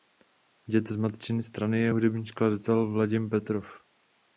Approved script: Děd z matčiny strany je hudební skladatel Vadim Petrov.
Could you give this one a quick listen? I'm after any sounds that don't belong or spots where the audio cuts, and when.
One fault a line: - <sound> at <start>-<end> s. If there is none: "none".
none